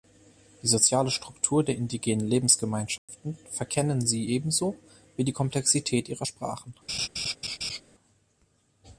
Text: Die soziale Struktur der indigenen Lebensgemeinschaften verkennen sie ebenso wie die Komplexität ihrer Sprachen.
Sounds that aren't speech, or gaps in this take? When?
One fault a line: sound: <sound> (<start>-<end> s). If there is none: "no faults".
sound: dropout (3.0-3.1 s)
sound: laugh (6.9-7.8 s)